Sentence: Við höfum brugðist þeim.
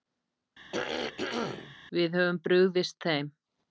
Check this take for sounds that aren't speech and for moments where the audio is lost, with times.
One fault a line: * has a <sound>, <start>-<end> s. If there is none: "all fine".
* has a throat clearing, 0.7-1.8 s